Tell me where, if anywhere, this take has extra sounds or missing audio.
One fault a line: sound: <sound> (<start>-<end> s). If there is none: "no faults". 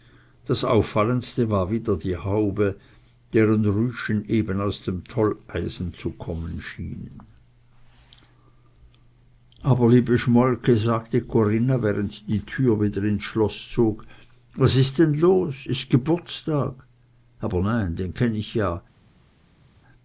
no faults